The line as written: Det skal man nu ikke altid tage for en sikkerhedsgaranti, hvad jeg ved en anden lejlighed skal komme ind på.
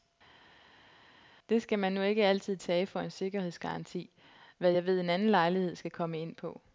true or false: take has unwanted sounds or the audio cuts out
false